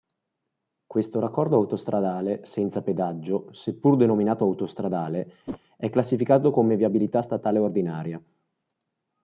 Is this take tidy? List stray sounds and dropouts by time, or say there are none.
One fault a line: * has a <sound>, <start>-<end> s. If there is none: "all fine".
* has a whoosh, 5.5-5.6 s